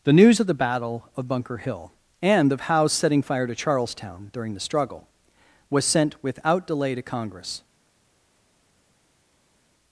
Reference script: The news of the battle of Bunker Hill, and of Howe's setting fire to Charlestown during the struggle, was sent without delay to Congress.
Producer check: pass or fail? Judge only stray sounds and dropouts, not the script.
pass